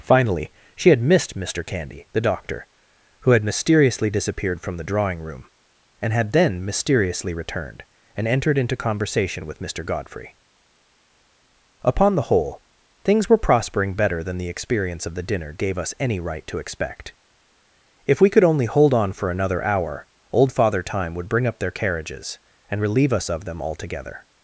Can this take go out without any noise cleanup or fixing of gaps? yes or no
yes